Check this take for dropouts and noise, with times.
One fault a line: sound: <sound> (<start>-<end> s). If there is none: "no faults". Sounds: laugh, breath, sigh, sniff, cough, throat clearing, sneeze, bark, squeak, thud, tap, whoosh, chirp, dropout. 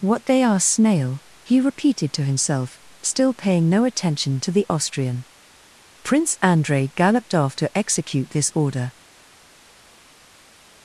no faults